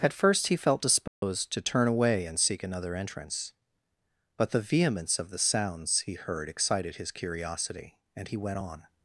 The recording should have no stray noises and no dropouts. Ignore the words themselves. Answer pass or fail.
fail